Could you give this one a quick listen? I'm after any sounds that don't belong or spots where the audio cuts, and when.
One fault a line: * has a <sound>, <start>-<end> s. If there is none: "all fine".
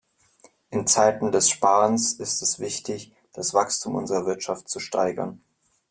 all fine